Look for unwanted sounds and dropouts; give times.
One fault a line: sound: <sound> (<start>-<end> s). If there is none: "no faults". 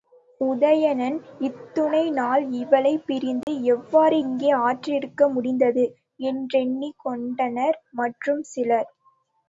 sound: dropout (3.4-3.5 s)